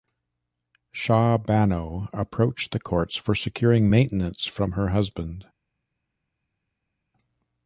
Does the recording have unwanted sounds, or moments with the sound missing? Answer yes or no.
no